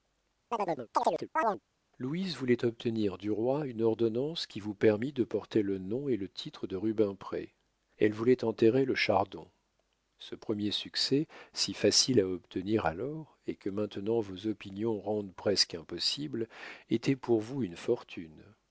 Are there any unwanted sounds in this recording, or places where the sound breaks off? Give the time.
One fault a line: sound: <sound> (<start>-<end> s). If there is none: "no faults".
sound: chirp (0.5-1.6 s)